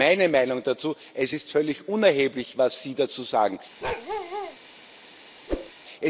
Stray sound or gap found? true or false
true